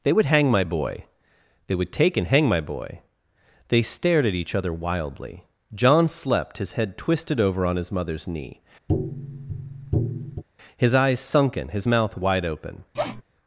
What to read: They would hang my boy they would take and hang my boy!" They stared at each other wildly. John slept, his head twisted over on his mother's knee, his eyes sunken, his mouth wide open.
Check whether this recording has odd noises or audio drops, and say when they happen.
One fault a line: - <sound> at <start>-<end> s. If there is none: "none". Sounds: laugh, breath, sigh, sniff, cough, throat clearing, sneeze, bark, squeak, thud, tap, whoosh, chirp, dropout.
- tap at 8.9-10.4 s
- sniff at 12.9-13.2 s